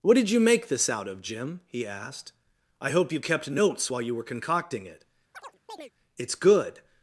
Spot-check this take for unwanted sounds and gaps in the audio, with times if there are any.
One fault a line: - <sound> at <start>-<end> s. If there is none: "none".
- chirp at 5.3-5.9 s